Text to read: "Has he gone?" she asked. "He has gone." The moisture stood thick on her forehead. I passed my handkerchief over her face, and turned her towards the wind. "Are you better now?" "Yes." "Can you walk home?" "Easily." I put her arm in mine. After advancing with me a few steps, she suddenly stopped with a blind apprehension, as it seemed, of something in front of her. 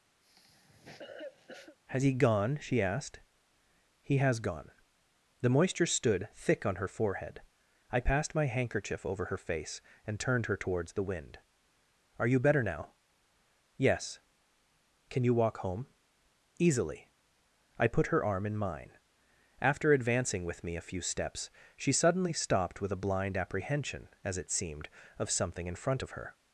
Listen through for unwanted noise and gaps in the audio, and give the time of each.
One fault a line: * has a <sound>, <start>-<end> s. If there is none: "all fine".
* has a cough, 0.2-1.8 s